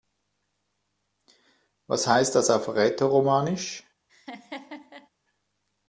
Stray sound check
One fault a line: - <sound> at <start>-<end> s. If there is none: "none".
- laugh at 4.1-5.1 s